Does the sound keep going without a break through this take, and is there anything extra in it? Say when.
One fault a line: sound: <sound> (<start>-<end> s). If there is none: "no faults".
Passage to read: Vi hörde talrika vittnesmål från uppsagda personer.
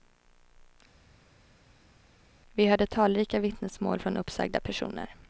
no faults